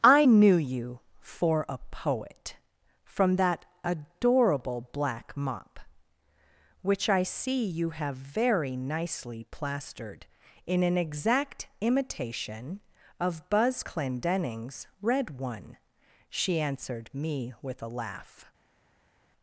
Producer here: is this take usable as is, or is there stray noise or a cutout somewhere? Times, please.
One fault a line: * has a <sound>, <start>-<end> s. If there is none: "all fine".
all fine